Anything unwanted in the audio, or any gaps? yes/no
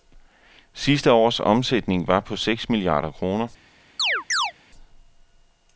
yes